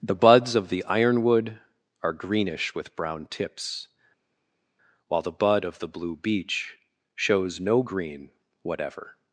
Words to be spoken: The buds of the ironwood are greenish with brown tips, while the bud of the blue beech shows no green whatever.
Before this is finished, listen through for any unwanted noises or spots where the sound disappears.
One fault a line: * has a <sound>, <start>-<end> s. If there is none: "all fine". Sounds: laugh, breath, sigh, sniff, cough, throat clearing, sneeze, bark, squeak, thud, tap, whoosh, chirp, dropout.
all fine